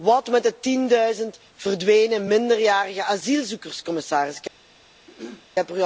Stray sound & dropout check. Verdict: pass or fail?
fail